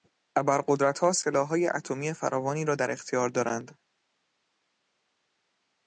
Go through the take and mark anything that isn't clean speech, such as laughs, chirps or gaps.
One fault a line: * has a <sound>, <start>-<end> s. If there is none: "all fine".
all fine